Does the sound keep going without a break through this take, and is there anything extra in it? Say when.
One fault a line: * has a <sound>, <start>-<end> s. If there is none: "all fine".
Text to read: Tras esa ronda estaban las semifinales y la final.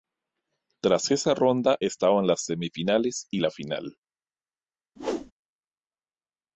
* has a whoosh, 5.0-5.3 s